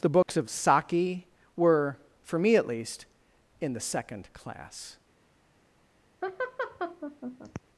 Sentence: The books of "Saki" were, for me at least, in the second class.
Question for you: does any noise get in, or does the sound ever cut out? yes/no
yes